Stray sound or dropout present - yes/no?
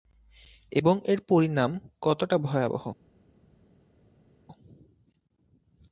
no